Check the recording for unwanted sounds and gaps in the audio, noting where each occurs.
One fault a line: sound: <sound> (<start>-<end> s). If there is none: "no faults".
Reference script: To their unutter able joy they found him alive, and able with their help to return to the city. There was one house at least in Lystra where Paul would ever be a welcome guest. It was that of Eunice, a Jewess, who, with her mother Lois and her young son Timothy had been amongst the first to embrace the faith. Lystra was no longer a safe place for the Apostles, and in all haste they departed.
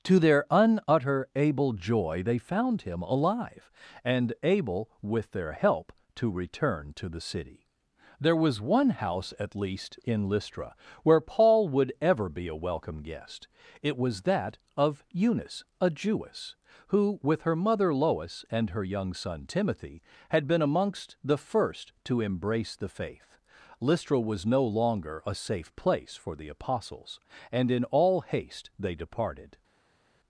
no faults